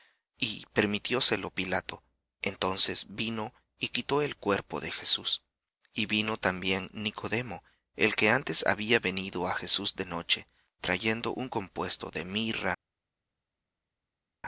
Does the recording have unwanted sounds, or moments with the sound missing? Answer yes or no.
no